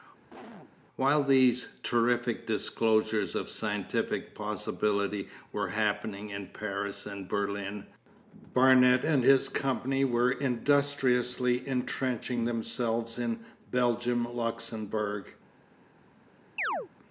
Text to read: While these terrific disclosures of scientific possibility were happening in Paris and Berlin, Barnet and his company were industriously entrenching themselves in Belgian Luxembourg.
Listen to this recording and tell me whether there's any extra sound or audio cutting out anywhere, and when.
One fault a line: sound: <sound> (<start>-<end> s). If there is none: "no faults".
sound: cough (0.3-0.7 s)
sound: chirp (16.6-16.9 s)